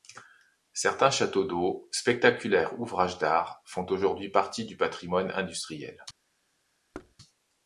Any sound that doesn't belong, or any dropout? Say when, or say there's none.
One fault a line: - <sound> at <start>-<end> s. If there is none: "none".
- thud at 6.9-7.2 s